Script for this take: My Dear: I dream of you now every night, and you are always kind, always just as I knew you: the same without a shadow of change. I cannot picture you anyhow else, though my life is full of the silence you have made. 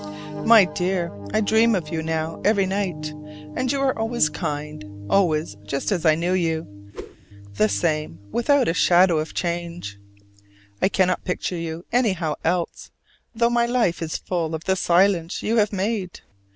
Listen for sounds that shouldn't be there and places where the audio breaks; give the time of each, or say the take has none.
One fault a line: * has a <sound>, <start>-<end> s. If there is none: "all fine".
* has a whoosh, 6.9-7.2 s